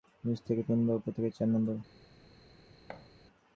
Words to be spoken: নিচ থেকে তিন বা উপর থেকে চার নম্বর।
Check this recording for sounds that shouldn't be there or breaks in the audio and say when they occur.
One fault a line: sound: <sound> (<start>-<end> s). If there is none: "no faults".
sound: thud (2.9-3.1 s)